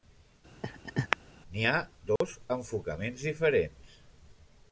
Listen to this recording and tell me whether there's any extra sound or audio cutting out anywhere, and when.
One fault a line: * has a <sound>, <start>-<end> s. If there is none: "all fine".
* has a laugh, 0.6-1.2 s
* has a dropout, 2.2-2.2 s